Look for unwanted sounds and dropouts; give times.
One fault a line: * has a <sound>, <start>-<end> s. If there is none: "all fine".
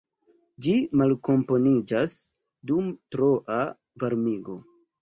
all fine